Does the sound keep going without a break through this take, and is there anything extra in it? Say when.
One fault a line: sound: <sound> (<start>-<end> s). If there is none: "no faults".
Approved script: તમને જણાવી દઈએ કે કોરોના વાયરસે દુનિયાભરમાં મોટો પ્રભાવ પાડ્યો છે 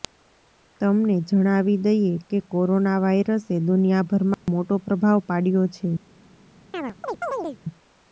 sound: dropout (4.3-4.5 s)
sound: chirp (6.7-7.6 s)